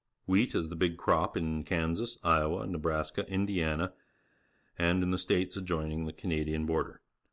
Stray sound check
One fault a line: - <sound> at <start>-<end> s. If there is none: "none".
none